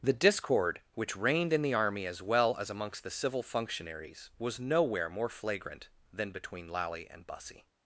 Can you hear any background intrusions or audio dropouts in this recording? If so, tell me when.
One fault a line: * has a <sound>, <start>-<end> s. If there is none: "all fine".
all fine